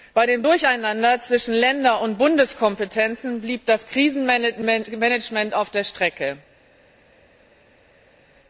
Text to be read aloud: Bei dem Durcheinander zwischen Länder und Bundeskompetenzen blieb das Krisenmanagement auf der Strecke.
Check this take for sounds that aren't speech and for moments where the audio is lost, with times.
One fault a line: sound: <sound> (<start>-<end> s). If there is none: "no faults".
no faults